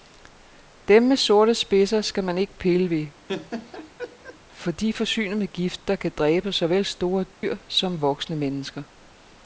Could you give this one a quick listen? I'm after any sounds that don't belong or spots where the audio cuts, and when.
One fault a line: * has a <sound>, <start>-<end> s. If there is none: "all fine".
* has a laugh, 3.3-4.4 s
* has a dropout, 7.3-7.4 s